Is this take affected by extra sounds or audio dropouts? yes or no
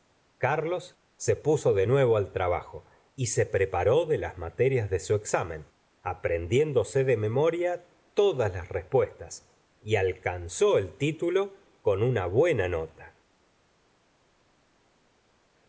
no